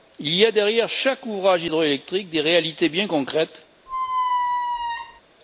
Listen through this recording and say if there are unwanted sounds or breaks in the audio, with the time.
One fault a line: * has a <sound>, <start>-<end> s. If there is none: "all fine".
* has a squeak, 3.9-5.2 s